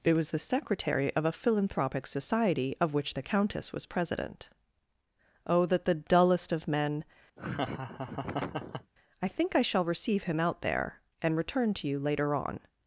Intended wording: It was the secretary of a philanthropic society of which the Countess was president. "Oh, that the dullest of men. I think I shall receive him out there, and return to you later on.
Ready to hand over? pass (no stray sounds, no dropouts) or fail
fail